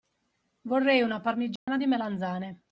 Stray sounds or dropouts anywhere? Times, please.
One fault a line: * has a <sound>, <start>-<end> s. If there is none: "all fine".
* has a dropout, 1.6-1.7 s